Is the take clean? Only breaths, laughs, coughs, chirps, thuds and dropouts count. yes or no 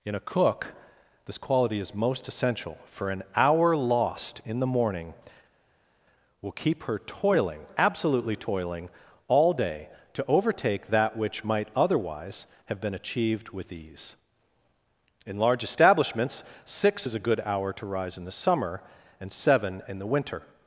yes